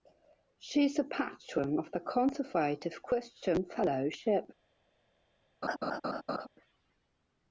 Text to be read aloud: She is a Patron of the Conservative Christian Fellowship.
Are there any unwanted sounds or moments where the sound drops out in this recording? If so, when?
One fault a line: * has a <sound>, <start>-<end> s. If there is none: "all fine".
* has a laugh, 5.6-6.5 s